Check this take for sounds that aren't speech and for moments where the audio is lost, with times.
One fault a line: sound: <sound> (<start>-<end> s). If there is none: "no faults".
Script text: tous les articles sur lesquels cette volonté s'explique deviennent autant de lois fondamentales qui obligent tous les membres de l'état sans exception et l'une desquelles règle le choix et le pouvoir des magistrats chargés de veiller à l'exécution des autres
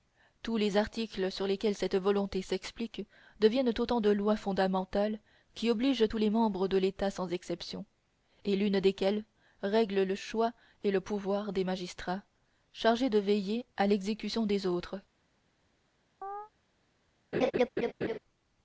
sound: chirp (16.2-16.5 s)
sound: laugh (17.3-18.2 s)